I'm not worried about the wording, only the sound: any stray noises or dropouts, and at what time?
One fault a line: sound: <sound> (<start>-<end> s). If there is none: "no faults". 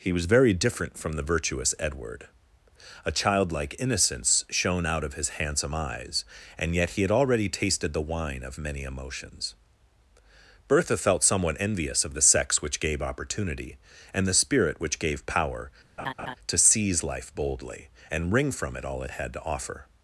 sound: laugh (16.0-16.4 s)